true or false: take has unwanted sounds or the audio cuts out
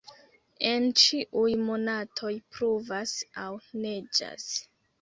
false